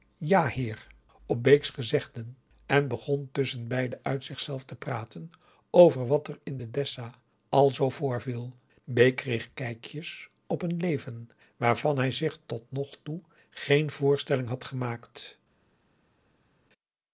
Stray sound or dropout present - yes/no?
no